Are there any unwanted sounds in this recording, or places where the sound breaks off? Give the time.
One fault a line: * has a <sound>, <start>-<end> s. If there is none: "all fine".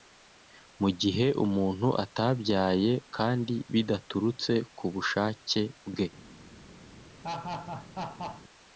* has a laugh, 7.2-8.4 s